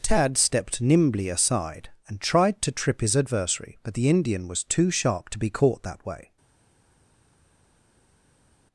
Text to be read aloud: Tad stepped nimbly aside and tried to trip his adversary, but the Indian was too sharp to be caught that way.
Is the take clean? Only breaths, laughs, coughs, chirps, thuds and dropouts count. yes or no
yes